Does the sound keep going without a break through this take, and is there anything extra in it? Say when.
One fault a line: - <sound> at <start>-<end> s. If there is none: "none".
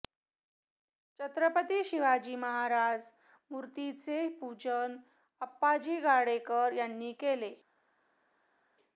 none